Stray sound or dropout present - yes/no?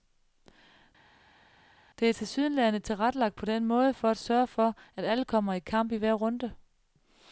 no